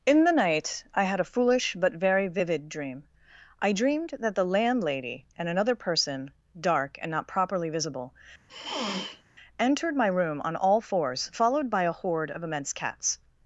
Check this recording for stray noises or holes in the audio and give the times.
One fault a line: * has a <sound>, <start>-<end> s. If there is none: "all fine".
* has a sniff, 8.5-9.2 s